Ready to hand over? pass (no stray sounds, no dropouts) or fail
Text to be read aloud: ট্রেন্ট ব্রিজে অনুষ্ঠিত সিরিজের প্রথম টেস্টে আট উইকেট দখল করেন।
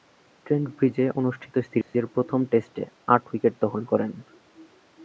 fail